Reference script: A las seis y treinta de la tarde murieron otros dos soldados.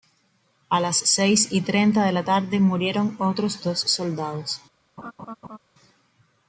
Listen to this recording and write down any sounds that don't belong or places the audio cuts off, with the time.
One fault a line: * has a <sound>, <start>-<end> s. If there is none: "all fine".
* has a laugh, 5.0-5.6 s